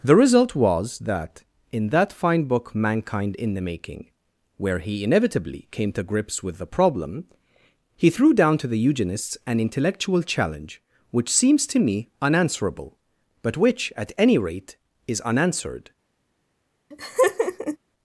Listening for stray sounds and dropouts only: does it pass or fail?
fail